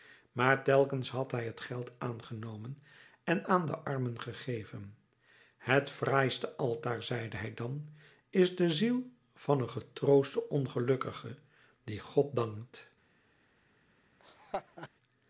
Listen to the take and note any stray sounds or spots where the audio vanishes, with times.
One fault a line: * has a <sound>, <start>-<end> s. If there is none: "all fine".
* has a laugh, 14.2-14.9 s